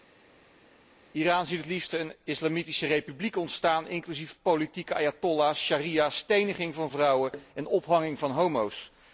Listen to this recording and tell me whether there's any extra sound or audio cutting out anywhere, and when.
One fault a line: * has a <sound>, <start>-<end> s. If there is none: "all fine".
all fine